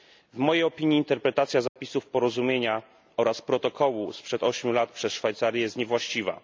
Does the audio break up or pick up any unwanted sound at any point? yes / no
yes